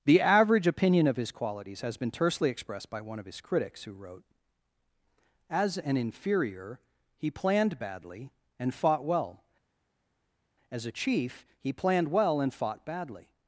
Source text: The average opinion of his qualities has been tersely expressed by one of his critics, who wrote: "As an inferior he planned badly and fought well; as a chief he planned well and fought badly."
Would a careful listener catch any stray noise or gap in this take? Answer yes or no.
no